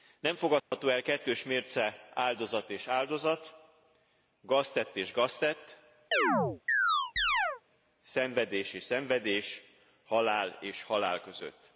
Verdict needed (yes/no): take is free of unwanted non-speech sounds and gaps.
no